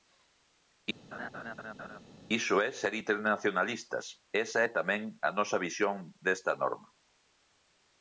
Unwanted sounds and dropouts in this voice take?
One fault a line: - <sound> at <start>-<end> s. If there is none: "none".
- laugh at 1.1-2.0 s